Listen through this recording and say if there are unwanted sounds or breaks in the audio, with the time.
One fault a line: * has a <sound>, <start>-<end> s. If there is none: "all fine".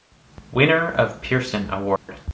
* has a dropout, 2.0-2.1 s